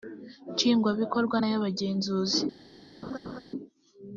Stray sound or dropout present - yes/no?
yes